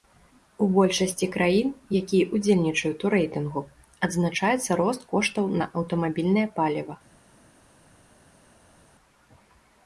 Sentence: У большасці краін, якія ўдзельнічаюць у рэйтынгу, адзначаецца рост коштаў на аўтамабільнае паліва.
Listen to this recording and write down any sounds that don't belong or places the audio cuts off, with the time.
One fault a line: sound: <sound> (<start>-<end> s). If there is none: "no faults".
no faults